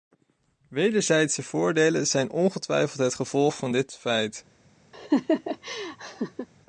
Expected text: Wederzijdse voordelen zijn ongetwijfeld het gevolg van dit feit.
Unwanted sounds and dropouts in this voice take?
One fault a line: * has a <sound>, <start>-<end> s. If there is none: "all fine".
* has a laugh, 4.9-6.5 s